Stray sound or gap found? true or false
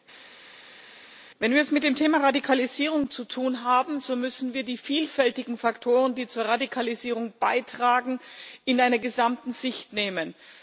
false